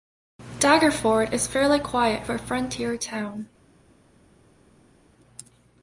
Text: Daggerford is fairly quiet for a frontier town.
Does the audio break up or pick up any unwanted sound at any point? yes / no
no